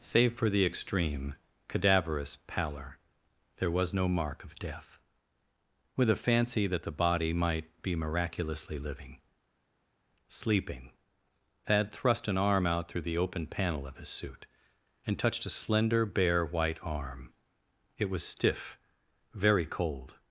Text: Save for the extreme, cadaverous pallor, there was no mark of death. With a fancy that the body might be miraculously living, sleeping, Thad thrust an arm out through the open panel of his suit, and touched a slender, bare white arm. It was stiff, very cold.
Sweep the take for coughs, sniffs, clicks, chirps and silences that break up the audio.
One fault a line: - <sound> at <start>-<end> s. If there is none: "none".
none